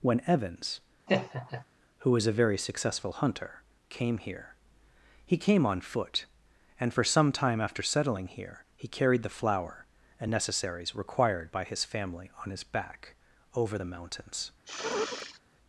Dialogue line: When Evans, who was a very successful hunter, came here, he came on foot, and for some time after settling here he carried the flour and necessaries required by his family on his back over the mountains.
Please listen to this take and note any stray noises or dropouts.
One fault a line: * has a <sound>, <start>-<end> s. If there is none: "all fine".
* has a laugh, 1.1-1.6 s
* has a sniff, 14.6-15.4 s